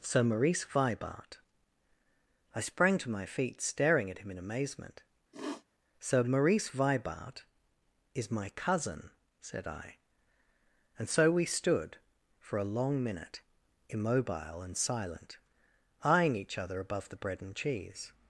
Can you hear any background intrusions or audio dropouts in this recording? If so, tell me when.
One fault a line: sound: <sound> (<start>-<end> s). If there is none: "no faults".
sound: sniff (5.3-5.6 s)